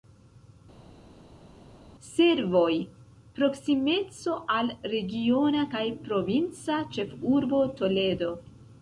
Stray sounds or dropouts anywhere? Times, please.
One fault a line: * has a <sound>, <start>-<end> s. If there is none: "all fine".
all fine